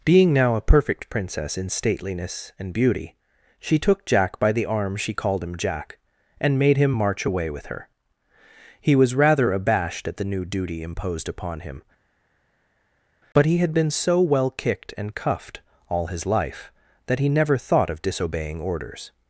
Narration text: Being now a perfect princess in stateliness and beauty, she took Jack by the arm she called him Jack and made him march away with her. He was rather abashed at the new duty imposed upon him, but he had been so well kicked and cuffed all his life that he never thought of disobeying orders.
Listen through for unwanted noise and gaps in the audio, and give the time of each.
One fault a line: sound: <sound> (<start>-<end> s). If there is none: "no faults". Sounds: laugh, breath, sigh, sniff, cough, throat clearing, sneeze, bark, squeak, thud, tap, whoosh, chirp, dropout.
no faults